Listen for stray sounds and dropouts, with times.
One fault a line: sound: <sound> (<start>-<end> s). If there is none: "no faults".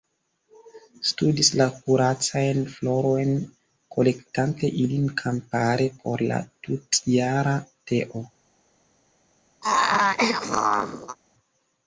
sound: throat clearing (9.6-11.2 s)